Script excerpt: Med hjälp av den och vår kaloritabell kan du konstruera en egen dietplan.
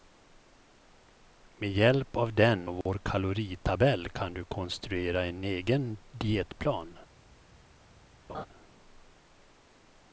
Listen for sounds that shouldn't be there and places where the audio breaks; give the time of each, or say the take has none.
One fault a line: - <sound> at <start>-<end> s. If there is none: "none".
- dropout at 2.8-2.9 s
- laugh at 8.3-8.5 s